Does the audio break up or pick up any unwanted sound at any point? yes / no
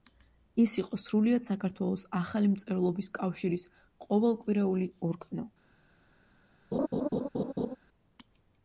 yes